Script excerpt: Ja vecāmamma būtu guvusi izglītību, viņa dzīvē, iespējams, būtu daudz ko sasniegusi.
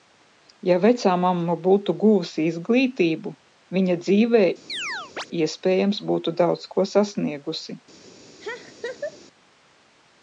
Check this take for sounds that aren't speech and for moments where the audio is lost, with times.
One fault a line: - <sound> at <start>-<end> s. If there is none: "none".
- chirp at 4.7-5.3 s
- laugh at 8.4-9.2 s